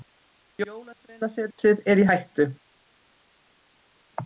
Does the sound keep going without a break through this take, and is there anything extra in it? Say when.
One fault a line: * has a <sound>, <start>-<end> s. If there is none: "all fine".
all fine